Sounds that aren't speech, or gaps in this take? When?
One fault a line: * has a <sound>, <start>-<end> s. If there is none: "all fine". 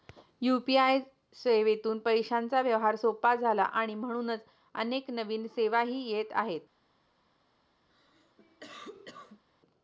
* has a cough, 7.9-9.4 s